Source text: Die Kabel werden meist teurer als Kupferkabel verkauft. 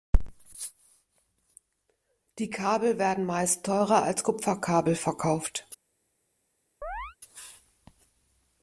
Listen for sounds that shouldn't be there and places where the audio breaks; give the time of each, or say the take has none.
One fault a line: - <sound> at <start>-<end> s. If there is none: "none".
- chirp at 6.8-7.2 s